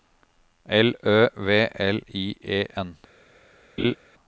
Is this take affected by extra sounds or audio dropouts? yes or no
yes